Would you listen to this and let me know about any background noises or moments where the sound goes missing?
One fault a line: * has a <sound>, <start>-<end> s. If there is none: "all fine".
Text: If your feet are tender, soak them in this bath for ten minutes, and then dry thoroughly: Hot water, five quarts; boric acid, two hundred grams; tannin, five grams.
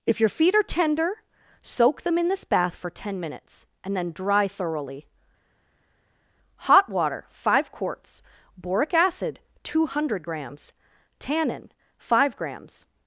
all fine